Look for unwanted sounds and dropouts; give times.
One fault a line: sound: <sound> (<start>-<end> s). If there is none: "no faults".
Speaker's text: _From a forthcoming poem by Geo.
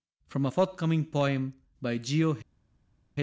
no faults